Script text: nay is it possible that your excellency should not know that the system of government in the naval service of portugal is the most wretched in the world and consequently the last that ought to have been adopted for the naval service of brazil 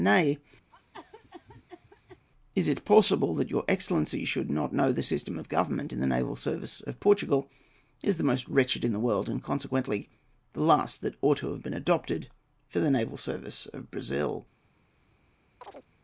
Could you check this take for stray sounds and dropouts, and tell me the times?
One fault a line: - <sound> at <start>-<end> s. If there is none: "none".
- cough at 0.7-2.3 s
- chirp at 15.6-15.9 s